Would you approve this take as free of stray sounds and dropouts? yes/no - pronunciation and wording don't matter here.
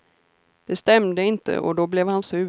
yes